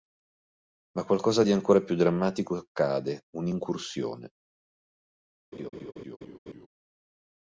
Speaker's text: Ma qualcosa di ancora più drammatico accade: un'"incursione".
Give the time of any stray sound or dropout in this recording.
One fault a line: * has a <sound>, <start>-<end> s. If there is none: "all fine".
* has a laugh, 5.5-6.7 s